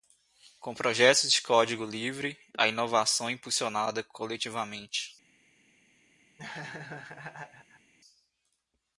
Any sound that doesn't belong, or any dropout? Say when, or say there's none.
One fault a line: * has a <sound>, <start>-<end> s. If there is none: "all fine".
* has a laugh, 6.4-7.9 s